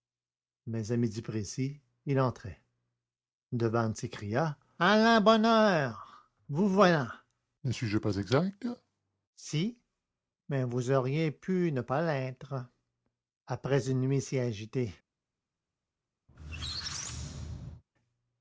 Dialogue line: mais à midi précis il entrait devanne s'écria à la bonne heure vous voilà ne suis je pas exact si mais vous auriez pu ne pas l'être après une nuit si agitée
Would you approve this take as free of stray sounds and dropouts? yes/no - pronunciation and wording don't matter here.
no